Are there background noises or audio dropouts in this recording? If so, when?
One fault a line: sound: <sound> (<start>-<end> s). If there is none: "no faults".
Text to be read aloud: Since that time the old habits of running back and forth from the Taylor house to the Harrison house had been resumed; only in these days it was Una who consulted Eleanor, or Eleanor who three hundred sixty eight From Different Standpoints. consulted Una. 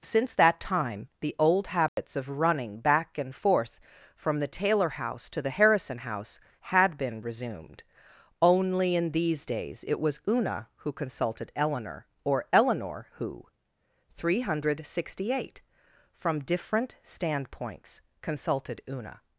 sound: dropout (1.9-2.0 s)